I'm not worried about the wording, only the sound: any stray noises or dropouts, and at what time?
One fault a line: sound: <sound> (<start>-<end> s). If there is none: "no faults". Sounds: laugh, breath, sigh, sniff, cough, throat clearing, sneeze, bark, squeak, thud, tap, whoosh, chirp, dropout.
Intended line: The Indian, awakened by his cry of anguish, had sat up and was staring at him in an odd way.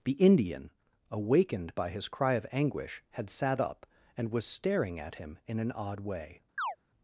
sound: chirp (6.6-6.8 s)